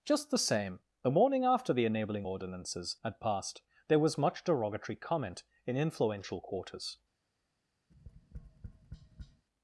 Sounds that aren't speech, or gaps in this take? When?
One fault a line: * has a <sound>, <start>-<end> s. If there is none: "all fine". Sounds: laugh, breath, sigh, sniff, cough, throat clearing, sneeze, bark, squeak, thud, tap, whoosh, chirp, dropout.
* has a tap, 7.9-9.4 s